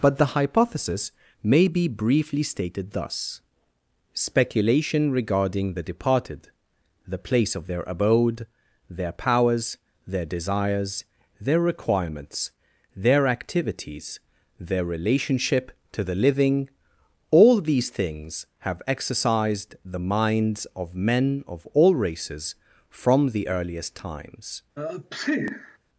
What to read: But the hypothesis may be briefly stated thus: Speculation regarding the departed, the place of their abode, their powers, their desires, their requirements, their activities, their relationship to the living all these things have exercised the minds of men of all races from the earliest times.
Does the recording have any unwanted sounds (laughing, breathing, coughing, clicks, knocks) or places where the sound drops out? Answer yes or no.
yes